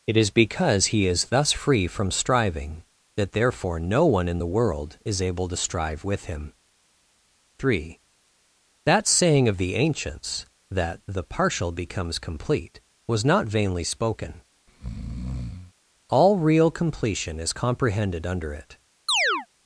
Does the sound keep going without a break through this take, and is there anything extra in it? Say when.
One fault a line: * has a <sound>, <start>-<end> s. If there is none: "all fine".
* has a breath, 14.7-15.7 s
* has a chirp, 19.1-19.5 s